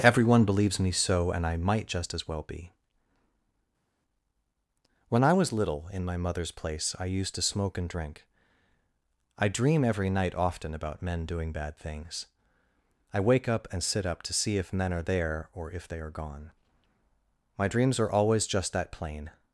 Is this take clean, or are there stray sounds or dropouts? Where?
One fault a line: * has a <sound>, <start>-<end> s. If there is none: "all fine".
all fine